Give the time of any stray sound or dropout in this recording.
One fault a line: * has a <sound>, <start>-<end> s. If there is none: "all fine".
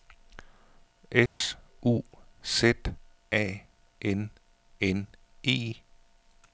* has a dropout, 1.3-1.4 s